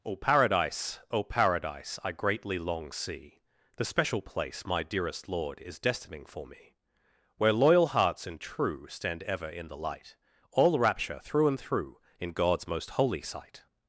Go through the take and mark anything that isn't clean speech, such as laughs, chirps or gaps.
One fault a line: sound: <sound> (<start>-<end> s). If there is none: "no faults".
no faults